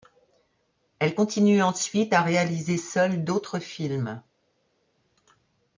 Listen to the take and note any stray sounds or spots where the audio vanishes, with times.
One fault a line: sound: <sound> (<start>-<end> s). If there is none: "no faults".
no faults